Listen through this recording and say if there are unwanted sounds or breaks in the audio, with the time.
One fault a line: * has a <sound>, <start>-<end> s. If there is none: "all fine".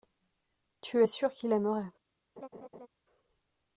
* has a laugh, 2.4-2.9 s